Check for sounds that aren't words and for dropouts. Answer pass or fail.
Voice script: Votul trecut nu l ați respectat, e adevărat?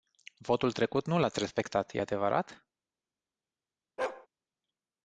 fail